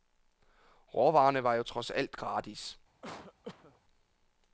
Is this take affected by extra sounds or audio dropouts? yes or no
yes